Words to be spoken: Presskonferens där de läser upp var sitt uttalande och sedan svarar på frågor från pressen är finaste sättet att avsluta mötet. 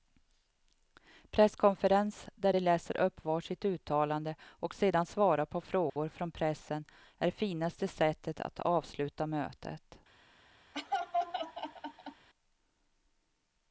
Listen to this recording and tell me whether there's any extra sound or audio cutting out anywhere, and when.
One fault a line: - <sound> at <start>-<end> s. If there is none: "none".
- dropout at 5.9-6.0 s
- laugh at 10.7-12.3 s